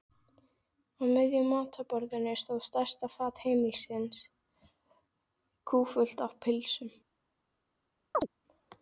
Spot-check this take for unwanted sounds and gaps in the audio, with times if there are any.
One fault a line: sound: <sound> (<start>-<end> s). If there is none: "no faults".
sound: chirp (8.1-8.3 s)